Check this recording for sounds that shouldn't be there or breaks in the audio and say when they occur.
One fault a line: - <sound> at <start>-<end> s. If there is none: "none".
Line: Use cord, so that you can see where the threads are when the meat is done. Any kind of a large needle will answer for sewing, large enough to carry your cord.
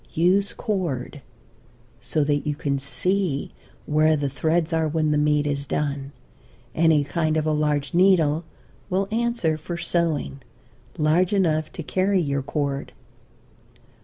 none